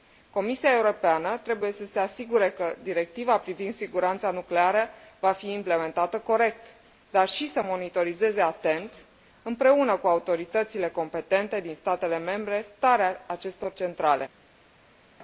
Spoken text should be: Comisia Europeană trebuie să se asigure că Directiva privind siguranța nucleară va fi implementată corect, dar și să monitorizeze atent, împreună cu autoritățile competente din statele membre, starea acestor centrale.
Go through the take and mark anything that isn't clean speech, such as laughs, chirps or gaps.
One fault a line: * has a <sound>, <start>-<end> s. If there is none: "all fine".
all fine